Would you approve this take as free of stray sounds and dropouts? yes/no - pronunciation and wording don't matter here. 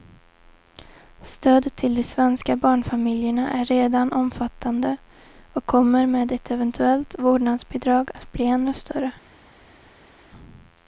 yes